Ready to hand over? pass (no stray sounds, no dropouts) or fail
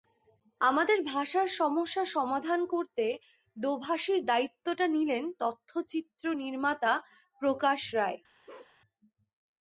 fail